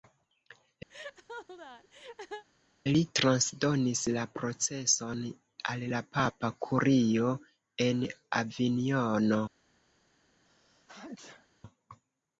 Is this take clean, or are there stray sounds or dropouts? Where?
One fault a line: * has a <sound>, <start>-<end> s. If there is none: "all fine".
* has a laugh, 0.9-2.4 s
* has a sneeze, 10.4-11.5 s